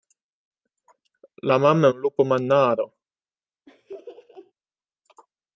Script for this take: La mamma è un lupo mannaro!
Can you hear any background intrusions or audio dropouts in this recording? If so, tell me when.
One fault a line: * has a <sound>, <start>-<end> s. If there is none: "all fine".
* has a laugh, 3.7-4.5 s